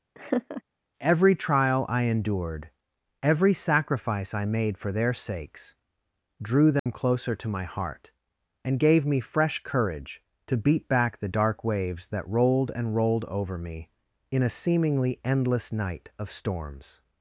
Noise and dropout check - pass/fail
fail